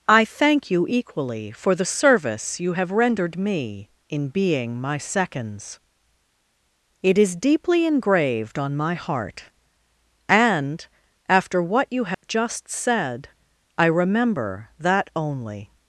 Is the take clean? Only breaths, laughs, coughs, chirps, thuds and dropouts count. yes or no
no